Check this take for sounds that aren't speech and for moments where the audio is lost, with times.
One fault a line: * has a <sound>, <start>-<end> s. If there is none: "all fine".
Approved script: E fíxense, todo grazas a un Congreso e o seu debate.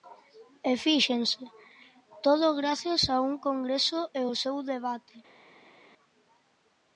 all fine